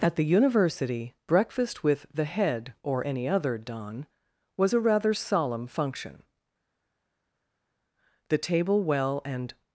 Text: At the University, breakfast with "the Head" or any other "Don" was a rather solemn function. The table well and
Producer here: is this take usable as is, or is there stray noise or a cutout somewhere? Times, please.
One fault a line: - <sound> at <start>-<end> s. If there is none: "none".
none